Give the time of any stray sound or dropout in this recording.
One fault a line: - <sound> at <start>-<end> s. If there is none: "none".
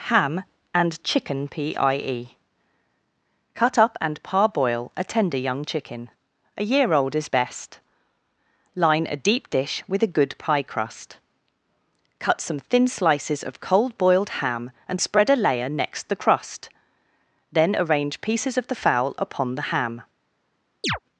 - chirp at 20.8-21.0 s